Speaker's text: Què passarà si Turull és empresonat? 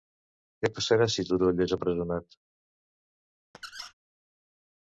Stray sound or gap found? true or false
true